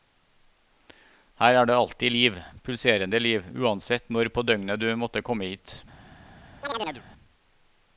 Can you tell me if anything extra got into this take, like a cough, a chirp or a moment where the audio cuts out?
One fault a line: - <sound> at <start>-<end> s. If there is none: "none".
- chirp at 6.6-7.0 s